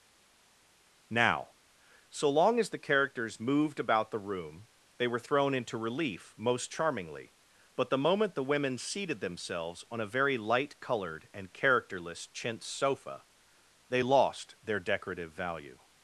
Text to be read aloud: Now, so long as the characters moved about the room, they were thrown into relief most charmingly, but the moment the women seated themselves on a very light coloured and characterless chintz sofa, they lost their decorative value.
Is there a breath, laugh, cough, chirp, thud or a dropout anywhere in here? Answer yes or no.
no